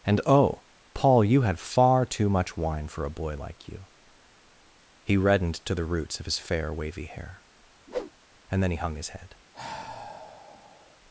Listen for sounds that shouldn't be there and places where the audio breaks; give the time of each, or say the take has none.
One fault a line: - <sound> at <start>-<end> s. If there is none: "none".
- whoosh at 7.9-8.1 s
- sigh at 9.5-11.0 s